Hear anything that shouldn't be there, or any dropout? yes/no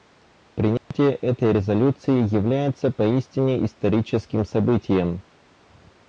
yes